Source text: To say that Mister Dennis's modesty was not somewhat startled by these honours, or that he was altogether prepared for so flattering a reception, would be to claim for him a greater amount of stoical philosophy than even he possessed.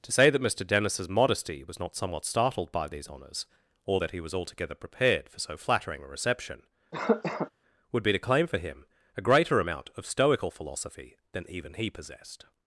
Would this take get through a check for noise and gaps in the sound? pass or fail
fail